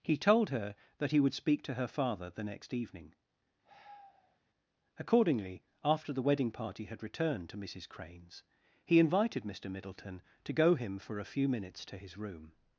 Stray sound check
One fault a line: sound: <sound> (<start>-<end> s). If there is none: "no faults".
sound: sigh (3.6-4.4 s)